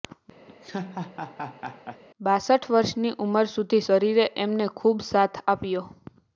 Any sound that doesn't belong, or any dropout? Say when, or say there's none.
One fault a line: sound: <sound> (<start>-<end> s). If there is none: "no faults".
sound: laugh (0.5-2.0 s)